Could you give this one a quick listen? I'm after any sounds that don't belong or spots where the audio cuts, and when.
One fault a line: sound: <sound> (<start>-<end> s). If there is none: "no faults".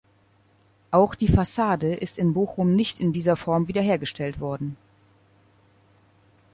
no faults